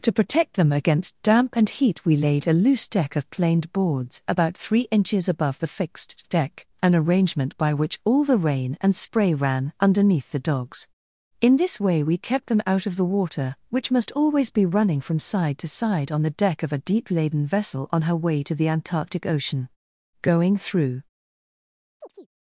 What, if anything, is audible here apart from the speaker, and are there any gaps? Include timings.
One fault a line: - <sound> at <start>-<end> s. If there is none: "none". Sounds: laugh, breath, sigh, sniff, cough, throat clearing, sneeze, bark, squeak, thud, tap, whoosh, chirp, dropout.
- chirp at 22.0-22.3 s